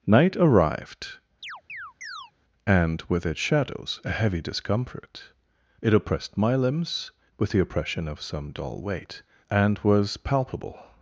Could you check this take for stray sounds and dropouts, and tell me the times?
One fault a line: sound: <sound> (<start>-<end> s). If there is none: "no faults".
sound: chirp (1.4-2.3 s)